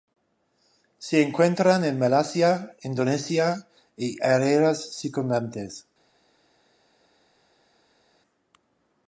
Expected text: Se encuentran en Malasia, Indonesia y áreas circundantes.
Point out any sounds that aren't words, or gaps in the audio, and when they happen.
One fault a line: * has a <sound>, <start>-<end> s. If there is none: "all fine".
all fine